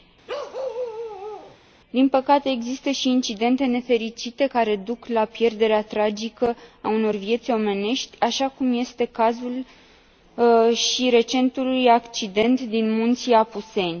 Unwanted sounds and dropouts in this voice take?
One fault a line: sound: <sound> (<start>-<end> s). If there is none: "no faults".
sound: bark (0.3-1.6 s)